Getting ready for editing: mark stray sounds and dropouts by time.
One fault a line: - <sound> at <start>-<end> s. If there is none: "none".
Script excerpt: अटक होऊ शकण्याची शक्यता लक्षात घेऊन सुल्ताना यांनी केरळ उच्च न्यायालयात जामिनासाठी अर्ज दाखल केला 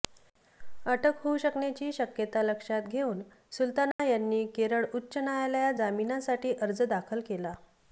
- dropout at 3.9-4.0 s